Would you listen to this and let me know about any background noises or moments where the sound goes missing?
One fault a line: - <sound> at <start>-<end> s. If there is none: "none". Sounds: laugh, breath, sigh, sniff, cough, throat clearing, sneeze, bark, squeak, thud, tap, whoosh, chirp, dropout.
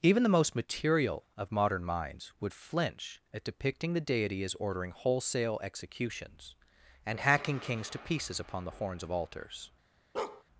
- bark at 10.1-10.4 s